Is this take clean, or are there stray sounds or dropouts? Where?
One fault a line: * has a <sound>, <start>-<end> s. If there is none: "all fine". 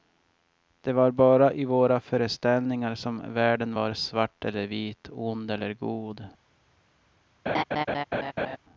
* has a laugh, 7.5-8.6 s